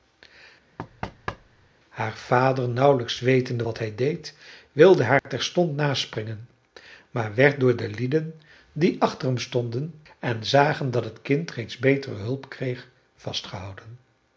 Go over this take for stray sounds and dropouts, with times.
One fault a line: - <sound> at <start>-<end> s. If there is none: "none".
- thud at 0.8-1.7 s
- dropout at 5.2-5.3 s